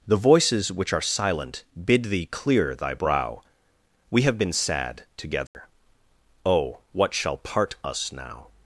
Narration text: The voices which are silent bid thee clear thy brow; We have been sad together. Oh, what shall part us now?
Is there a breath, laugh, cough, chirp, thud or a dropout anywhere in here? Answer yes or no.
yes